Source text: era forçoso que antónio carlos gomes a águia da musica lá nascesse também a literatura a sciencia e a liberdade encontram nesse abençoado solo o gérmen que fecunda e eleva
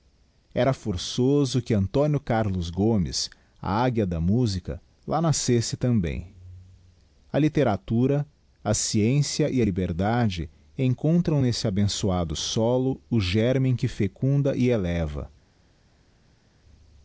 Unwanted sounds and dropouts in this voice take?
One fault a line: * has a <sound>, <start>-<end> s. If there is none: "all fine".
all fine